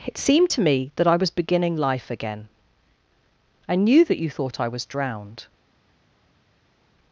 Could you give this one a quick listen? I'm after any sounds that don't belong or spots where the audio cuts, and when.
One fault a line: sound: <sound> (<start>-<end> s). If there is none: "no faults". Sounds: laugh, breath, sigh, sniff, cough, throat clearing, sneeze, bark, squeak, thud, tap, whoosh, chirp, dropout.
no faults